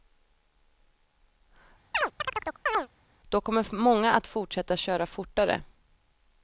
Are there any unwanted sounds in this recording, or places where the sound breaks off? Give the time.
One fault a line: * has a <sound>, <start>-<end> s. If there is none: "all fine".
* has a chirp, 1.9-2.9 s